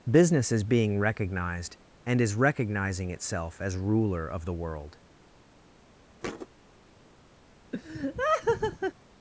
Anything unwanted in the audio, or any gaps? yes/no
yes